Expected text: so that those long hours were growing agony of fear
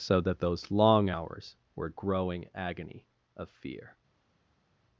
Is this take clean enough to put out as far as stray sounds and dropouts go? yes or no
yes